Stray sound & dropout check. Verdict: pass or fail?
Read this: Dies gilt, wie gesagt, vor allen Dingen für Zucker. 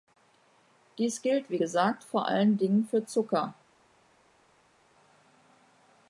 pass